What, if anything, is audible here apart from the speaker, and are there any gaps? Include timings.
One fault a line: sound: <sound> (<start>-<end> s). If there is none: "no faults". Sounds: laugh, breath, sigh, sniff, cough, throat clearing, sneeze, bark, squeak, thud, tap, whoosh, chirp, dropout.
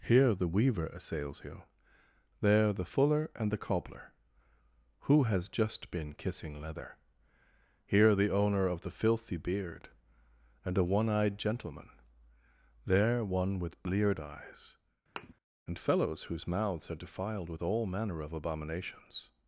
sound: thud (15.2-15.3 s)